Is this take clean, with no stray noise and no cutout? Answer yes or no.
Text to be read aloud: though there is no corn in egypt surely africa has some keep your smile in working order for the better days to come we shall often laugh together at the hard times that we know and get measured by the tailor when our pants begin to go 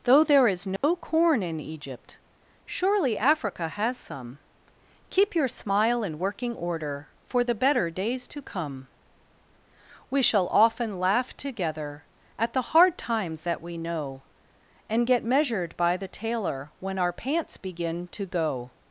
no